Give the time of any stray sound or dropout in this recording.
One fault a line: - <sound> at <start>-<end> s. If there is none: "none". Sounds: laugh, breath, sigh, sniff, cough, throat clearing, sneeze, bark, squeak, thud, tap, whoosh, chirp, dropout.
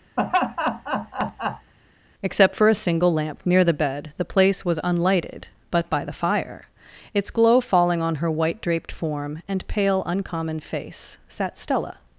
- laugh at 0.2-1.7 s